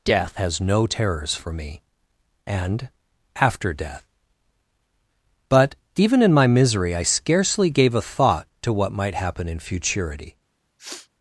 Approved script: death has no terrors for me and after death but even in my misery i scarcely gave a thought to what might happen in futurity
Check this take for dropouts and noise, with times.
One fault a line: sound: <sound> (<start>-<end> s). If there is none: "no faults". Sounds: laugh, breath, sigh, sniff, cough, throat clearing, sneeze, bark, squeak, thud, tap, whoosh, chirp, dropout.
sound: sniff (10.8-11.1 s)